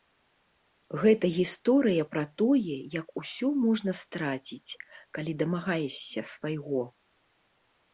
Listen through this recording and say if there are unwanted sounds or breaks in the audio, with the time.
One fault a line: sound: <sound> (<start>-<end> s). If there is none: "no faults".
no faults